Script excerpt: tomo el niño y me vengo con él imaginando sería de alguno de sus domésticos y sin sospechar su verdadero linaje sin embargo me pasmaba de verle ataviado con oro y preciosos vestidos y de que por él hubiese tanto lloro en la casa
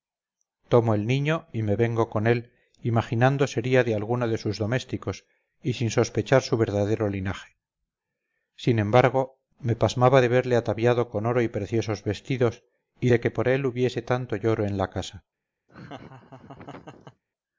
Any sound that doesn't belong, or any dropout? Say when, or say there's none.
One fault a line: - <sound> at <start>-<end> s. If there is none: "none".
- laugh at 15.7-17.2 s